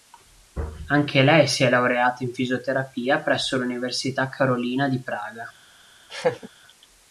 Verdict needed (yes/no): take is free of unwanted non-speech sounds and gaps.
no